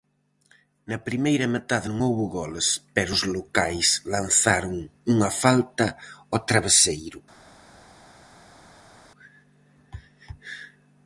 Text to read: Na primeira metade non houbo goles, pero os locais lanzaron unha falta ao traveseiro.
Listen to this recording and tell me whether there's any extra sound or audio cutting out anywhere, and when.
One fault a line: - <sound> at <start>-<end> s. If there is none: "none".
none